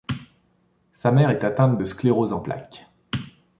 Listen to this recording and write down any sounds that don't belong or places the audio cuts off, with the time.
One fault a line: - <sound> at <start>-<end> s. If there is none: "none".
none